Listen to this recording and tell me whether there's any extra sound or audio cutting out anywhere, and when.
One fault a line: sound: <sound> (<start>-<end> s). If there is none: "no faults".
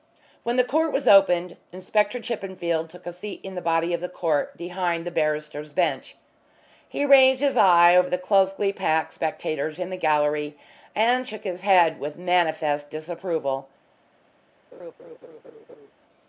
sound: laugh (14.7-15.9 s)